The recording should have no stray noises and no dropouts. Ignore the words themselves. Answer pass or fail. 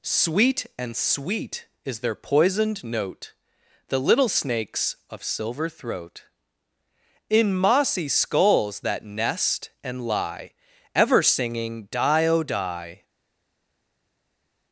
pass